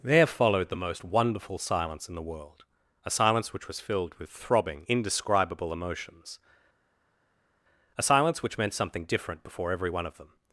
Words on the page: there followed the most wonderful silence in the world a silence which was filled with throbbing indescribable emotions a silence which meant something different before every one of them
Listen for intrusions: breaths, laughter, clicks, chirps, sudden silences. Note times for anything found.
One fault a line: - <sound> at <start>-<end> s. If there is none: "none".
none